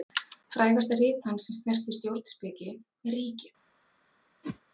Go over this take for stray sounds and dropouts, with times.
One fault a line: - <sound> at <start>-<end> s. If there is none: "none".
- whoosh at 4.4-4.6 s